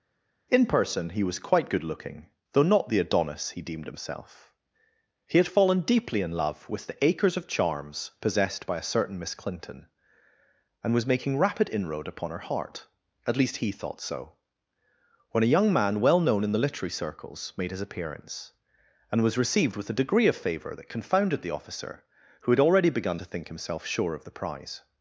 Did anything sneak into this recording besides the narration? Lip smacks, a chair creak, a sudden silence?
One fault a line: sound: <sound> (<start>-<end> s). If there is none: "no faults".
no faults